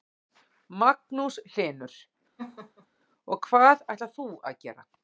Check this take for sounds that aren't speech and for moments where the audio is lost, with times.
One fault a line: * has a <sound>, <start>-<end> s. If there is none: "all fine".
* has a laugh, 2.4-2.9 s